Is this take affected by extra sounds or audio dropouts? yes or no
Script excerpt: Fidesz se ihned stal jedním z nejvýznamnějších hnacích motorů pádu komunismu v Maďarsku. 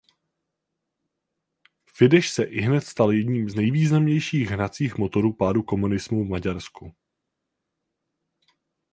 no